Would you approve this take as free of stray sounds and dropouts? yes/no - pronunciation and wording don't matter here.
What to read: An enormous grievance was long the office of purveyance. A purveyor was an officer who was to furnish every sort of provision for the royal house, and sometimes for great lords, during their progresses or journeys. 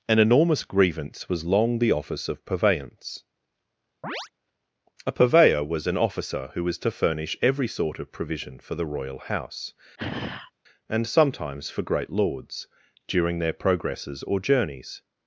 no